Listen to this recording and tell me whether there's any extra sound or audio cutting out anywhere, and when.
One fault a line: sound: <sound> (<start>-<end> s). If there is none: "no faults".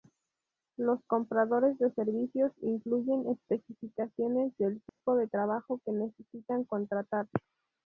sound: dropout (4.9-5.0 s)